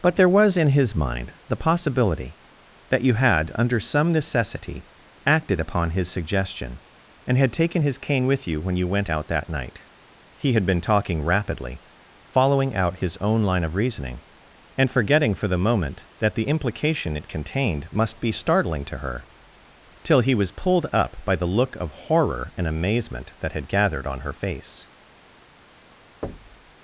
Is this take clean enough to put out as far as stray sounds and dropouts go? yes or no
no